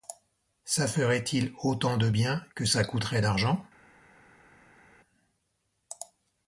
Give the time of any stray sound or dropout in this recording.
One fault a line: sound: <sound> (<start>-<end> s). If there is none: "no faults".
no faults